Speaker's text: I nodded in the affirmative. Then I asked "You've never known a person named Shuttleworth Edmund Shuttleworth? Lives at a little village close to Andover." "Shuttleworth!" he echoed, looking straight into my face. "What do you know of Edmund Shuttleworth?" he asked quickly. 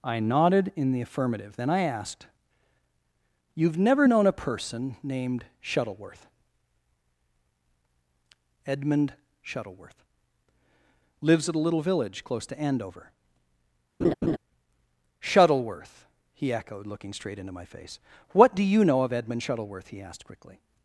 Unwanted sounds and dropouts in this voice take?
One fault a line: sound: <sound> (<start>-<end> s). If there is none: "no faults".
sound: laugh (14.0-14.4 s)